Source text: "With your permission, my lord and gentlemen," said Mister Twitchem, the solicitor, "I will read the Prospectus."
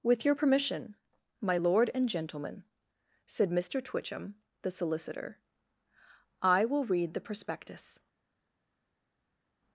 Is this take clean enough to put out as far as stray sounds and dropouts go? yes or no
yes